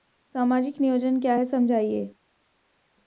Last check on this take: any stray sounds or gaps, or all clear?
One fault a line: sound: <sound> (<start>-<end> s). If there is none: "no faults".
no faults